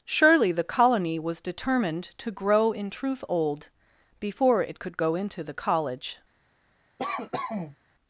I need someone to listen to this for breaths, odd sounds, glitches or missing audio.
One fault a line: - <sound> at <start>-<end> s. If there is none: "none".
- cough at 7.0-7.8 s